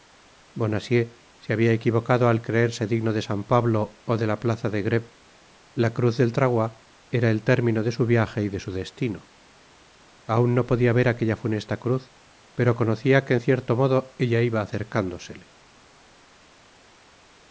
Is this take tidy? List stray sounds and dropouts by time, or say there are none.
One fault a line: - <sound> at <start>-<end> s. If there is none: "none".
none